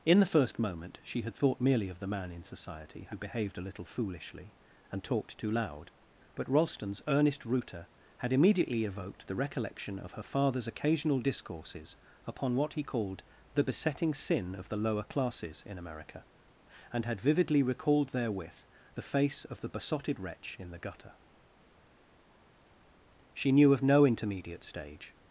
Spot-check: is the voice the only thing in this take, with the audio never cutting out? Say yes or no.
yes